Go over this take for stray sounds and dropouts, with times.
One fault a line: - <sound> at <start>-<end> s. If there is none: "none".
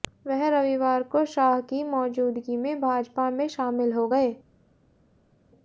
none